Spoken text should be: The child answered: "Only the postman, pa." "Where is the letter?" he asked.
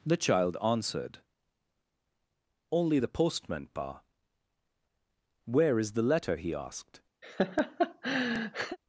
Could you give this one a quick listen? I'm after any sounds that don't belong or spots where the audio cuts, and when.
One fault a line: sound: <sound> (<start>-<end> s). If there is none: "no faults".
sound: laugh (7.2-8.8 s)